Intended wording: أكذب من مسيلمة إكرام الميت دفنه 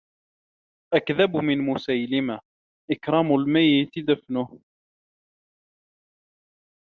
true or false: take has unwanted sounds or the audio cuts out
false